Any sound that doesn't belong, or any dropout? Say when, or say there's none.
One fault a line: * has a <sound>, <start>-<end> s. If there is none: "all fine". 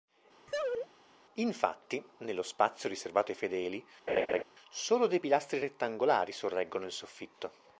* has a laugh, 0.5-0.9 s
* has a laugh, 4.1-4.4 s